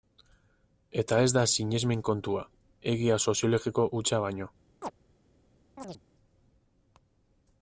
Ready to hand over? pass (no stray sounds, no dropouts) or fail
fail